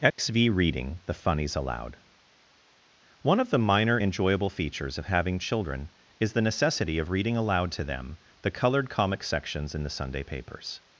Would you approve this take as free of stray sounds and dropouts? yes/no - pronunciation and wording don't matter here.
no